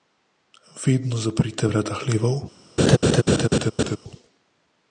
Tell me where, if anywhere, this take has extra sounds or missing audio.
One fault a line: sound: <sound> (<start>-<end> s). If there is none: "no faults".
sound: laugh (2.8-4.0 s)